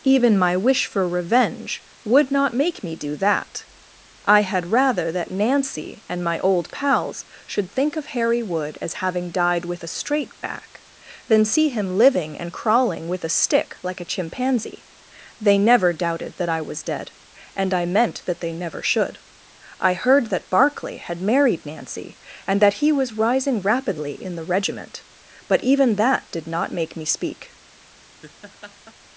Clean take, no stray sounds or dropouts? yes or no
no